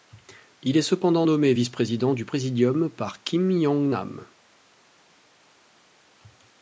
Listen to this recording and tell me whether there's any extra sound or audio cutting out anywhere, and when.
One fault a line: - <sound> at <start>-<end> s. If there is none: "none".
none